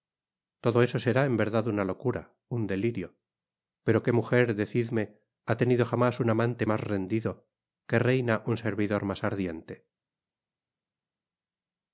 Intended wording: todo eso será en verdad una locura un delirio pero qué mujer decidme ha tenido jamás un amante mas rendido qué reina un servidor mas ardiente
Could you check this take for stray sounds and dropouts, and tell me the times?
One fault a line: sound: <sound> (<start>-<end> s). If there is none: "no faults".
no faults